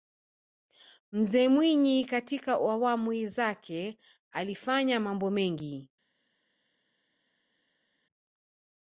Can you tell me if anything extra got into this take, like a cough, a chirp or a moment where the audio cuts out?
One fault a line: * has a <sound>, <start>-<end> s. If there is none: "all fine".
all fine